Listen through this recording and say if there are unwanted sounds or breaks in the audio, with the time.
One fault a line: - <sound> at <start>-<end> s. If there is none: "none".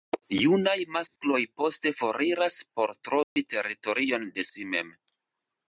- dropout at 1.1-1.2 s
- dropout at 3.2-3.4 s